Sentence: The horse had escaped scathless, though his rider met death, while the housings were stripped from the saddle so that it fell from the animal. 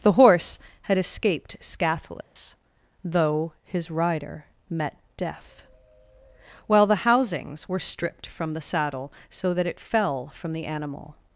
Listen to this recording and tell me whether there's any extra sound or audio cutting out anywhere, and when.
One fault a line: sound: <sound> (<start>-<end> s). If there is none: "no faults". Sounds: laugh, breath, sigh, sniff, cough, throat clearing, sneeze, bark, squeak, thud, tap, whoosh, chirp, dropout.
sound: dropout (2.2-2.4 s)